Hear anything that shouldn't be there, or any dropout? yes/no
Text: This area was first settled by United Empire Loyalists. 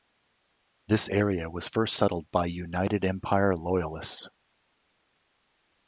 no